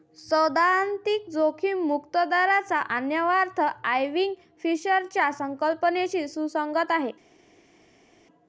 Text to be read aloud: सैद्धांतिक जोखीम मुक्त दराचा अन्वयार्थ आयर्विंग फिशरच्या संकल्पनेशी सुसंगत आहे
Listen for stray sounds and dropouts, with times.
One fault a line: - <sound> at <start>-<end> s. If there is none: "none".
none